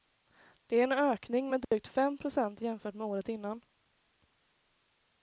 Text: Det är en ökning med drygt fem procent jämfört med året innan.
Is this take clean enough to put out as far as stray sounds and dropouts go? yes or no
no